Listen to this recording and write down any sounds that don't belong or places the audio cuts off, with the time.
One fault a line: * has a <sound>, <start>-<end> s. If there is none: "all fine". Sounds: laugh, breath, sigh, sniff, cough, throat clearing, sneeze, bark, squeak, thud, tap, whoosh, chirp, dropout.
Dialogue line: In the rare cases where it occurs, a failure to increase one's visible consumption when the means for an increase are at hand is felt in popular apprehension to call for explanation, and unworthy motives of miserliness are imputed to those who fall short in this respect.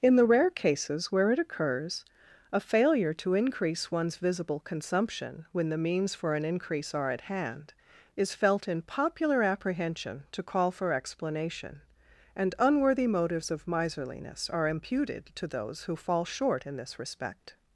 all fine